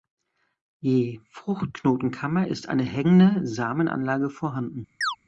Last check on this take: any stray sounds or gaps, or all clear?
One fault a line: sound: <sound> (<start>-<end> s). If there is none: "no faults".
sound: chirp (5.0-5.2 s)